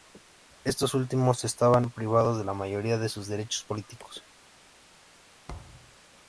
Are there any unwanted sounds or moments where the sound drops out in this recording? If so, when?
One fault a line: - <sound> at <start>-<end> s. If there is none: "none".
- thud at 5.5-6.0 s